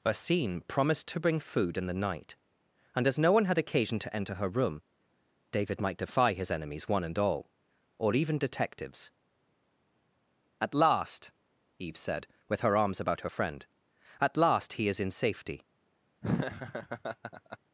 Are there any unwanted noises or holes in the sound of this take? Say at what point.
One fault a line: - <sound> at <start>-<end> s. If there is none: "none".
- laugh at 16.2-17.6 s